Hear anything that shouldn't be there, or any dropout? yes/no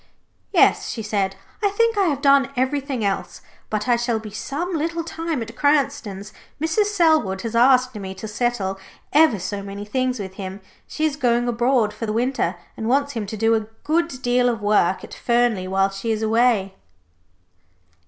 no